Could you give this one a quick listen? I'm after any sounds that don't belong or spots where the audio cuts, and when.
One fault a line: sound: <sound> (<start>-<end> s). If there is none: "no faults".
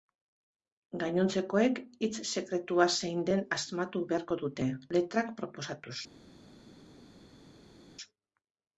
no faults